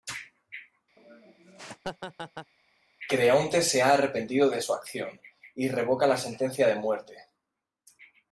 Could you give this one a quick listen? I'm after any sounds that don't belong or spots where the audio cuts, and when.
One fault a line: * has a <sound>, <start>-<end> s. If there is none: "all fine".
* has a laugh, 1.0-2.5 s